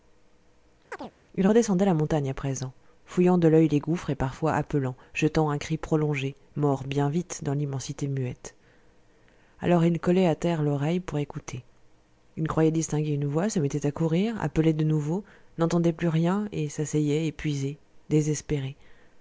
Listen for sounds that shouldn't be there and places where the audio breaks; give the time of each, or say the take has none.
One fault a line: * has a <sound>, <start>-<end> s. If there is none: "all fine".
* has a chirp, 0.9-1.1 s